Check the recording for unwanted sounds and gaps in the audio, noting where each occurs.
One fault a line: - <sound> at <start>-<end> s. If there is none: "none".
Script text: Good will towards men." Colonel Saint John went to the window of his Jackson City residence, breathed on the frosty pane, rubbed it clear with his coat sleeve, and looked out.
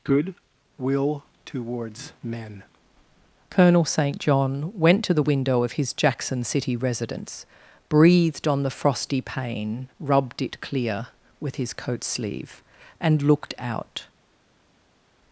none